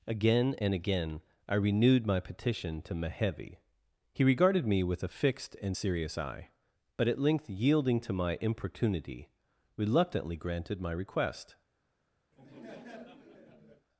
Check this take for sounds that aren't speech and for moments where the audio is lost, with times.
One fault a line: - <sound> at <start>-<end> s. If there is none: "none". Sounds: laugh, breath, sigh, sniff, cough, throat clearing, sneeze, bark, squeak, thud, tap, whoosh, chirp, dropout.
- laugh at 12.3-13.9 s